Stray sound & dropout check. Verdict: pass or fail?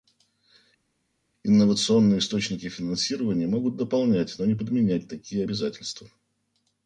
pass